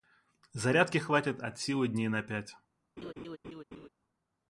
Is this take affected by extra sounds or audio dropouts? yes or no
yes